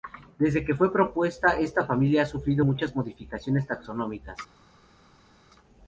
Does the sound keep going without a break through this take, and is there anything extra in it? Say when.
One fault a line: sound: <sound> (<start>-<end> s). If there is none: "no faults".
no faults